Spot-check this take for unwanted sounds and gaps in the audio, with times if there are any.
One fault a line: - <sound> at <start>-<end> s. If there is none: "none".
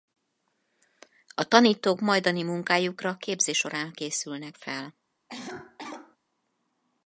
- cough at 5.3-6.2 s